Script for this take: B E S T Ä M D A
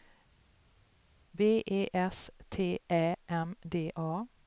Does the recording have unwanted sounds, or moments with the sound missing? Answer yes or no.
no